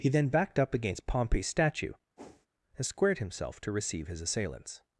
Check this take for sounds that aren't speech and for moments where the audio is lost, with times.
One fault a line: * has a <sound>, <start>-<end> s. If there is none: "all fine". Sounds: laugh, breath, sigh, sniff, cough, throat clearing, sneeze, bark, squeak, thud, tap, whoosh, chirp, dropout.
* has a whoosh, 2.2-2.5 s